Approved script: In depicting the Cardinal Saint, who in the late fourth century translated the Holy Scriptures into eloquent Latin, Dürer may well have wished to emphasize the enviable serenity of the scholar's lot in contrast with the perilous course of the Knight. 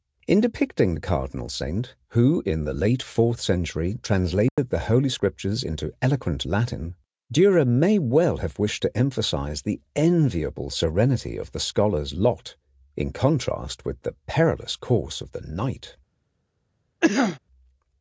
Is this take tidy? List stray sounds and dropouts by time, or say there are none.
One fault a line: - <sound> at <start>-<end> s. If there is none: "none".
- dropout at 4.5-4.6 s
- cough at 17.0-17.4 s